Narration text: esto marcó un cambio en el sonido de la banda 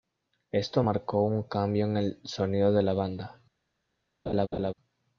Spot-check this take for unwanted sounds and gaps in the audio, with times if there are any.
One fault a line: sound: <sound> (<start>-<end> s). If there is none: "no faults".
sound: laugh (4.3-4.7 s)